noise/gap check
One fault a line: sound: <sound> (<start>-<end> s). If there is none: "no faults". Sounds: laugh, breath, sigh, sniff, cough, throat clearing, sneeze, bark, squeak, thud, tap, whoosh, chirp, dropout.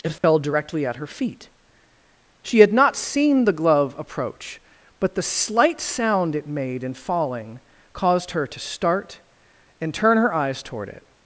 sound: dropout (0.2-0.2 s)